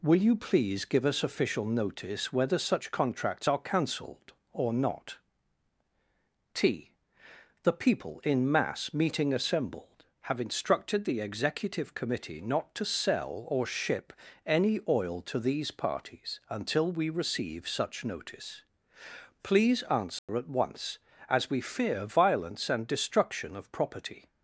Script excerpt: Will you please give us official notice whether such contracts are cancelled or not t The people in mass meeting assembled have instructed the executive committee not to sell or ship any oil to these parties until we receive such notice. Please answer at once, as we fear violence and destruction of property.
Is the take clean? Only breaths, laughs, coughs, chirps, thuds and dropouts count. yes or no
no